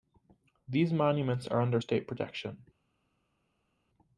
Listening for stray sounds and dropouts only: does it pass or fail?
pass